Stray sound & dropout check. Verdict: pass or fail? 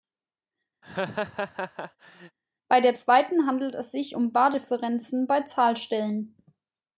fail